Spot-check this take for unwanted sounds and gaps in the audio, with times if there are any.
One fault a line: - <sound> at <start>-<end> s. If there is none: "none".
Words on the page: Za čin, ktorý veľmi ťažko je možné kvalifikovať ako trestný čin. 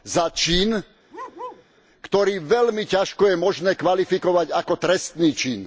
- bark at 1.1-1.7 s